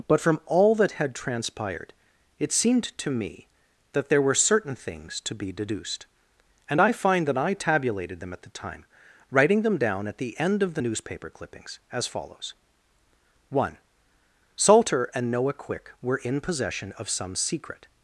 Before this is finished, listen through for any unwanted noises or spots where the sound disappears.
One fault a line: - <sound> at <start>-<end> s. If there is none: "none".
none